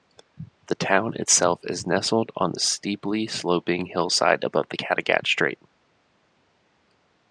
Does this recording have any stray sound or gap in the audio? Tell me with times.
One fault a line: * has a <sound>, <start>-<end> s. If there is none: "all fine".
all fine